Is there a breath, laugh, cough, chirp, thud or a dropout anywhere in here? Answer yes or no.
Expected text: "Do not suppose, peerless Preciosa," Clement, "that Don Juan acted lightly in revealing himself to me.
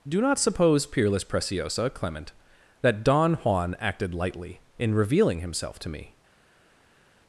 no